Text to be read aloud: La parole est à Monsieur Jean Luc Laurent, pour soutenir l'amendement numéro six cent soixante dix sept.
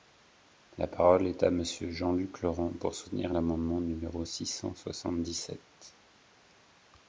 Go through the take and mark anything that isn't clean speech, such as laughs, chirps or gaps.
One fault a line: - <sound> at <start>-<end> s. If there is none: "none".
none